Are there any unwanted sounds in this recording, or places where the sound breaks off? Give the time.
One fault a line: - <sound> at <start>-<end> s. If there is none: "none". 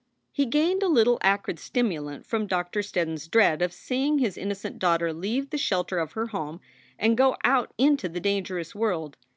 none